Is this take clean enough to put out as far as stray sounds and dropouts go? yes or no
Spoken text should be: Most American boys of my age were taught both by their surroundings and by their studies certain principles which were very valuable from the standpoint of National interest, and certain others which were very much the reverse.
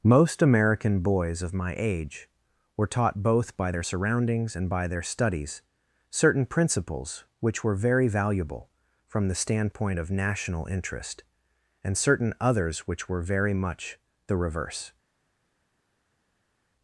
yes